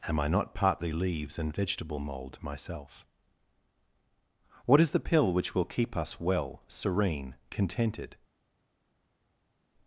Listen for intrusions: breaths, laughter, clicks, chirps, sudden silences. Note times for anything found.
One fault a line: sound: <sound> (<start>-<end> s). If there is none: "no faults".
no faults